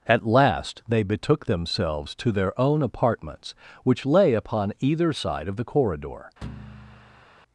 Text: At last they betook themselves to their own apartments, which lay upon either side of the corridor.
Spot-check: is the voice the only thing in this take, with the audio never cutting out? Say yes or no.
no